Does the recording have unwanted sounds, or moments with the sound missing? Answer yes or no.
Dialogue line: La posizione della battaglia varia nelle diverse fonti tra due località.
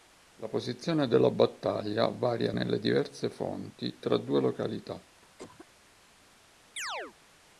yes